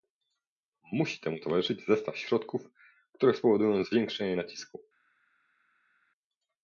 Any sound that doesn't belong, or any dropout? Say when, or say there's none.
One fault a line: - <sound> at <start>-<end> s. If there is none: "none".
none